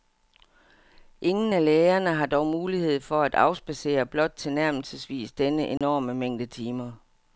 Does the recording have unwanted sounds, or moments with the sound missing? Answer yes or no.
yes